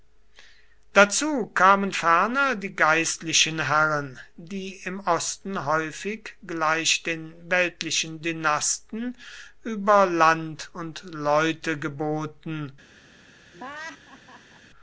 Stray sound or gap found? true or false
true